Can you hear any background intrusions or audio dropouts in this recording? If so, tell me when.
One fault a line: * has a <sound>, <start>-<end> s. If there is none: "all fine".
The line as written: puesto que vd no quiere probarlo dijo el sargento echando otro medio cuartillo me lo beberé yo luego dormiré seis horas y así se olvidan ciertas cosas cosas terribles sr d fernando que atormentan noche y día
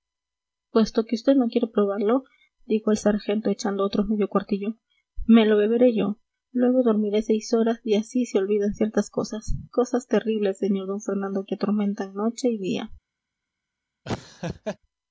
* has a laugh, 14.1-14.8 s